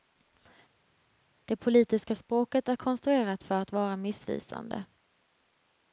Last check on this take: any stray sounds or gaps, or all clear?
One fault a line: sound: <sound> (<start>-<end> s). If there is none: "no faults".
no faults